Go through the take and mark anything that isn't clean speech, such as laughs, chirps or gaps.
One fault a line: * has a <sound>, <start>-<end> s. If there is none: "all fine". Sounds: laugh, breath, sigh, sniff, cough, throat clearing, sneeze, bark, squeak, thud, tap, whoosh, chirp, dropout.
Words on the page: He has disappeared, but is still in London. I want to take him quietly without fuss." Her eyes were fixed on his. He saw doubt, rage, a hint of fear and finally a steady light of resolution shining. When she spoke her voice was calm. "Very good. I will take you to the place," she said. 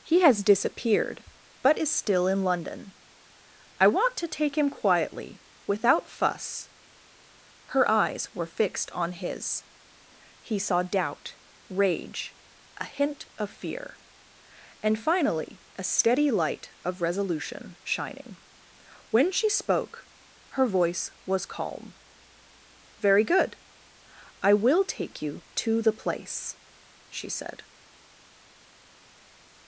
all fine